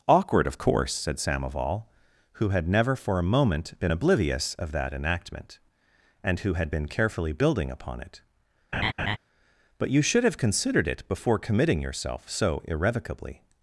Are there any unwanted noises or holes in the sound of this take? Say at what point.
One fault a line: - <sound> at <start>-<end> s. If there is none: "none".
- laugh at 8.7-9.2 s